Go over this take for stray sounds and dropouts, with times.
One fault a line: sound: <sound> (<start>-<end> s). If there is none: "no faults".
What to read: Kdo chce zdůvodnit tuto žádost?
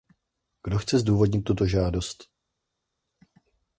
no faults